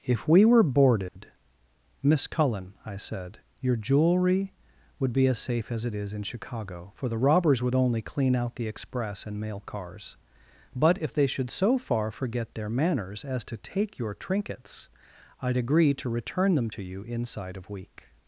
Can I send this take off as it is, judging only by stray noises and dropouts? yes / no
no